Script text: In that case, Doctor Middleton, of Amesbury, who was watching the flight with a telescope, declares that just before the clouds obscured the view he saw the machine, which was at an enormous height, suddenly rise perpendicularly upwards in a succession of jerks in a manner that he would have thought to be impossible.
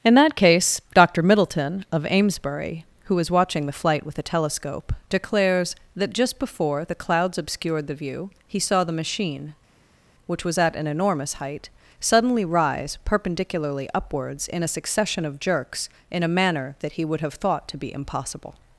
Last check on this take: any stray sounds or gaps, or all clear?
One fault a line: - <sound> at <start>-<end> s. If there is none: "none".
none